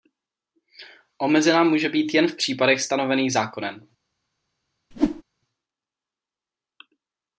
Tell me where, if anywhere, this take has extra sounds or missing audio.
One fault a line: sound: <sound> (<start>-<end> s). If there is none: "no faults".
sound: whoosh (4.9-5.2 s)